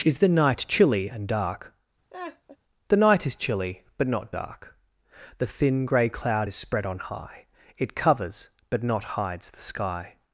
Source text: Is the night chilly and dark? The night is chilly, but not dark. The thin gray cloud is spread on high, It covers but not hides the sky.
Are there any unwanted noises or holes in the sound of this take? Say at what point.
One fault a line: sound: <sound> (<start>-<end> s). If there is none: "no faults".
sound: laugh (2.1-2.6 s)